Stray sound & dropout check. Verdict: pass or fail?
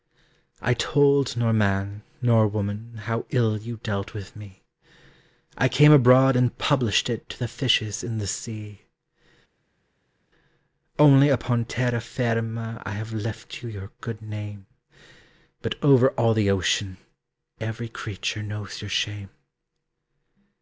pass